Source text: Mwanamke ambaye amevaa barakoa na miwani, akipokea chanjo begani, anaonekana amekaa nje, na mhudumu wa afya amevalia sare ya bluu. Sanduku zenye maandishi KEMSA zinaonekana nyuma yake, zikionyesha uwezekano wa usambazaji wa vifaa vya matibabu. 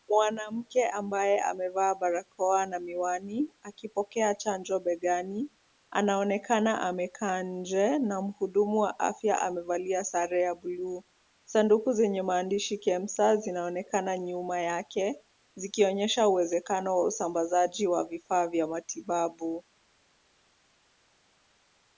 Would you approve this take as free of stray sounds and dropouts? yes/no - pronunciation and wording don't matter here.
yes